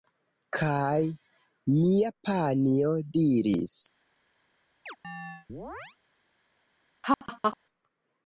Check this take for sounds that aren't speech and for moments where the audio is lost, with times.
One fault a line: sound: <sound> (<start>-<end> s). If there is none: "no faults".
sound: chirp (4.9-6.0 s)
sound: laugh (7.0-7.6 s)